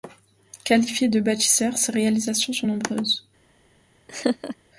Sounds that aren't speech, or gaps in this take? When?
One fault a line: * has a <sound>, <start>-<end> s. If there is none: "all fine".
* has a laugh, 4.1-4.6 s